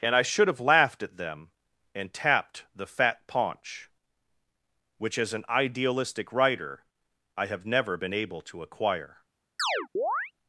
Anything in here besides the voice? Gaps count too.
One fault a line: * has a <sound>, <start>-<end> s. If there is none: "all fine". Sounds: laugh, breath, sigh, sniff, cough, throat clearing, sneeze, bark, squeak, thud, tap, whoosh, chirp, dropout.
* has a chirp, 9.6-10.3 s